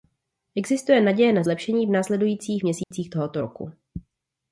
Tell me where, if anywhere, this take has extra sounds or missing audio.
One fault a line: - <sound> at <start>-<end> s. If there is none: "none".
- dropout at 2.8-2.9 s